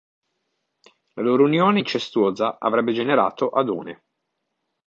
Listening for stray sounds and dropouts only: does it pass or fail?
pass